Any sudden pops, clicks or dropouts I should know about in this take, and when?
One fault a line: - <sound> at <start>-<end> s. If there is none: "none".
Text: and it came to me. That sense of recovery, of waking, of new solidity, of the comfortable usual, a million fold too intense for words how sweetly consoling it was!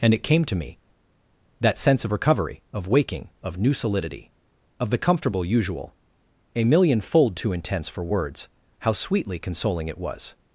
none